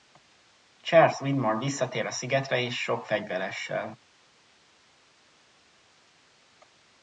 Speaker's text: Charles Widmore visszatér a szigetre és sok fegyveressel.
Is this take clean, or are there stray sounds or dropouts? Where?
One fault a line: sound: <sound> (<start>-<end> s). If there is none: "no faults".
no faults